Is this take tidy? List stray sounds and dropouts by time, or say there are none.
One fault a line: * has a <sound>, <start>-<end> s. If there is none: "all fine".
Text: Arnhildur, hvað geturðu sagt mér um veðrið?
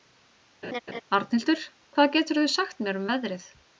* has a laugh, 0.6-1.0 s